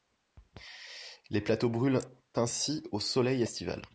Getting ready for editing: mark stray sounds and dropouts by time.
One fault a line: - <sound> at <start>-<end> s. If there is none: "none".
none